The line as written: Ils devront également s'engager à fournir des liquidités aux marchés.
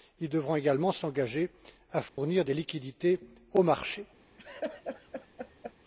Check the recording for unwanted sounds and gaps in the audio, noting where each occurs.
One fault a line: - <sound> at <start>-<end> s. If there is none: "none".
- dropout at 2.1-2.2 s
- laugh at 4.4-5.7 s